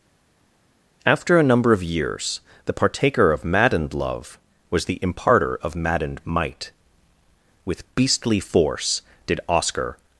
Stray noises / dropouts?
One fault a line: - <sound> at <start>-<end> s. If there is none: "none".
none